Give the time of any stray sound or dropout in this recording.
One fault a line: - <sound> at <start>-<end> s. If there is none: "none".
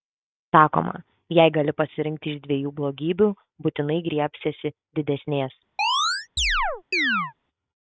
- chirp at 5.8-7.3 s